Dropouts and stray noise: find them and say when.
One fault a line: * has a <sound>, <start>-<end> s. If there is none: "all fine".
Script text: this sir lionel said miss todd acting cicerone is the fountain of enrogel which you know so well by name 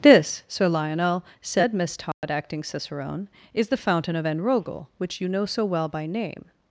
* has a dropout, 2.1-2.2 s